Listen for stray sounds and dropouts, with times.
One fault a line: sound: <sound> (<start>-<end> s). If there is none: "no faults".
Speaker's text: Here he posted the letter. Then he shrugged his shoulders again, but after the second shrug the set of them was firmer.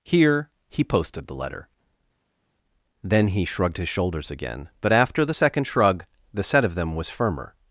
no faults